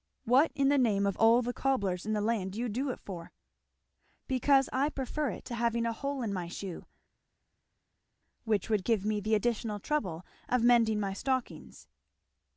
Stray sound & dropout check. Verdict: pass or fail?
pass